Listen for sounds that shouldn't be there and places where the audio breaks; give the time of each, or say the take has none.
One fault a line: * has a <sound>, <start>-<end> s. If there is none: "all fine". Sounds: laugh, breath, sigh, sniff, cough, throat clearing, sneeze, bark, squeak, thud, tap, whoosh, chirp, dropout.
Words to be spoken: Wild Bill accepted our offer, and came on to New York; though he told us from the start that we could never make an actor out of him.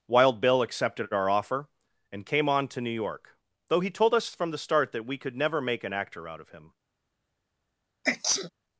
* has a sneeze, 8.0-8.5 s